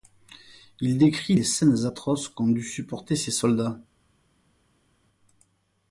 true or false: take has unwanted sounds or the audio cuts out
false